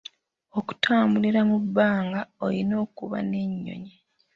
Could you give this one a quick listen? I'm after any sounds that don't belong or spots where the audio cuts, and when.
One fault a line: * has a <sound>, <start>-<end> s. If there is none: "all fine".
all fine